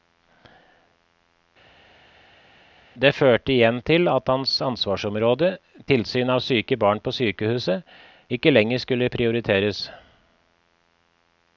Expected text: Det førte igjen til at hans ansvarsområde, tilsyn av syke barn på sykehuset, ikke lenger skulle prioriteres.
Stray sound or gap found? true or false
false